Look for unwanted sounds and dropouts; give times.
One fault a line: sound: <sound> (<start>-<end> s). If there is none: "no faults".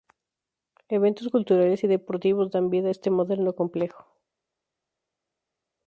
no faults